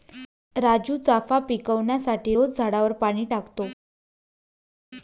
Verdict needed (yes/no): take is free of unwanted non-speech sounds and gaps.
yes